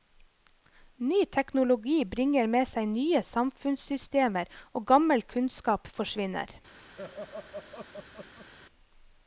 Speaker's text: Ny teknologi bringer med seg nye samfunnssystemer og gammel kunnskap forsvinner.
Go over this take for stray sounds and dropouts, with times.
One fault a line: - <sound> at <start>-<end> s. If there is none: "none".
- laugh at 6.9-8.5 s